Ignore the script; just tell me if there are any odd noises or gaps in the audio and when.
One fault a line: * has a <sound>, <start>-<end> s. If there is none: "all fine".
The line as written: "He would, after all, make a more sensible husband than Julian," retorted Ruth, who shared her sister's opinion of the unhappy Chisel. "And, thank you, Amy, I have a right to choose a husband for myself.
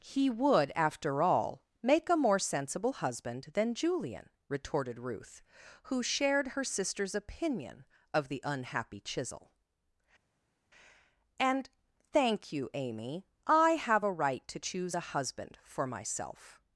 all fine